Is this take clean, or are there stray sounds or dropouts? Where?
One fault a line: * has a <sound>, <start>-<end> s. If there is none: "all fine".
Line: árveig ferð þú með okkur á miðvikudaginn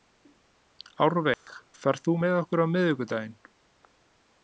* has a dropout, 1.3-1.5 s